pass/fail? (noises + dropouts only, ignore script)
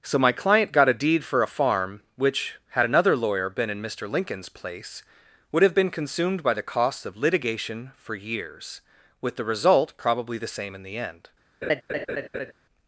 fail